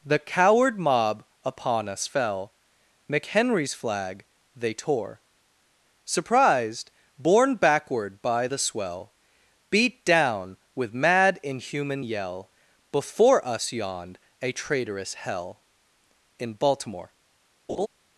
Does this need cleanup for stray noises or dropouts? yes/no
yes